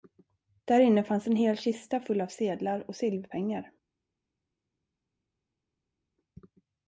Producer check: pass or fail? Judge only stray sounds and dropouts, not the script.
pass